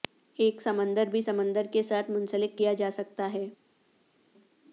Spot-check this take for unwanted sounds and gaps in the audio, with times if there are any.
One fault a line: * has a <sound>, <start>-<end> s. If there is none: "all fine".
all fine